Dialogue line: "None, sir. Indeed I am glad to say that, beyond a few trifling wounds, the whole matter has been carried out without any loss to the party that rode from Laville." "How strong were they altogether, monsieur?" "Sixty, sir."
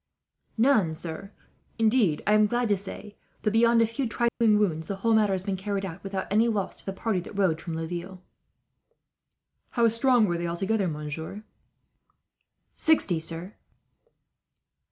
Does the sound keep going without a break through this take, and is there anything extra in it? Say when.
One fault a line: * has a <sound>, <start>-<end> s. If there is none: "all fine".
* has a dropout, 4.3-4.4 s